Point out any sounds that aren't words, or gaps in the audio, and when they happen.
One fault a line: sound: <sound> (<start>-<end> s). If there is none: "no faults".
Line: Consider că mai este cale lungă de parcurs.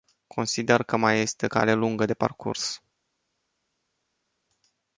no faults